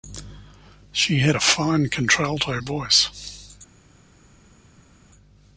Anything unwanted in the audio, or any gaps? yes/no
no